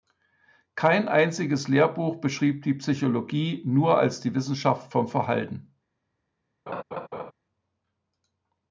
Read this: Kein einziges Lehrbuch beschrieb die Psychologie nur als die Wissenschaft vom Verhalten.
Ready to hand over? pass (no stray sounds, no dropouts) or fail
fail